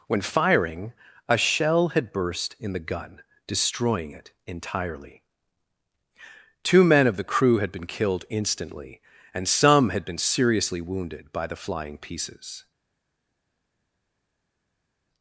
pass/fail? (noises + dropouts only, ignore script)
pass